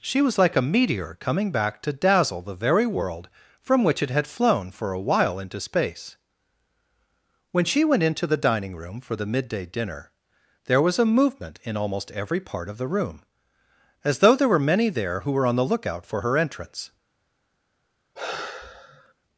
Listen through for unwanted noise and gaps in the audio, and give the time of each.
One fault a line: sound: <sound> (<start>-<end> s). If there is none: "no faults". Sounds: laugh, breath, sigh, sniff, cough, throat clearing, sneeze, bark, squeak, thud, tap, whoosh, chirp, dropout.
sound: sigh (18.2-19.1 s)